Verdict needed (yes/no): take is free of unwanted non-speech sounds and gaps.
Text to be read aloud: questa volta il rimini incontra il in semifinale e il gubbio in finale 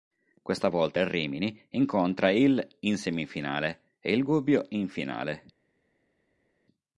yes